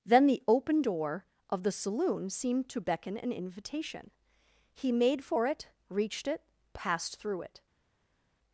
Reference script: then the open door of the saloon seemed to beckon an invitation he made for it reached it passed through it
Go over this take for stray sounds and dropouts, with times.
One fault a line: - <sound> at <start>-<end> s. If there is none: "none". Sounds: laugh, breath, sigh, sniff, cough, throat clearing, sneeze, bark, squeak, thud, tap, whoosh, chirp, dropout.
none